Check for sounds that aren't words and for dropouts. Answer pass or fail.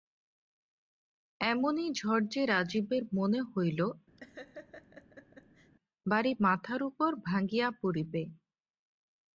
fail